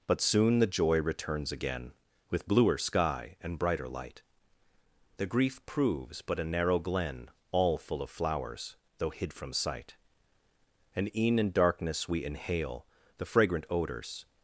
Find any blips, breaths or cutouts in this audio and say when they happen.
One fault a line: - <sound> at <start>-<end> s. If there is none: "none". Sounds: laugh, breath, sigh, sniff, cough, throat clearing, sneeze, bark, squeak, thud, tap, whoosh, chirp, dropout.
none